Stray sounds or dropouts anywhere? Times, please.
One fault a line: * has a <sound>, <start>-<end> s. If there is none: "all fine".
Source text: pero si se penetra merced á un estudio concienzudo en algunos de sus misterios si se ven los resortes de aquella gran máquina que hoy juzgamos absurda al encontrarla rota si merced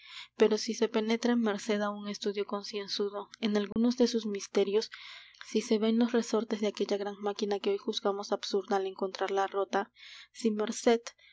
* has a dropout, 3.7-3.8 s